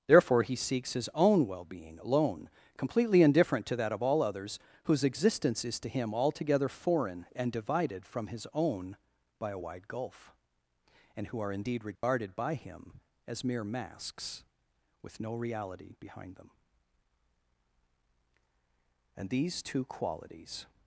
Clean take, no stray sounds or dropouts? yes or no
no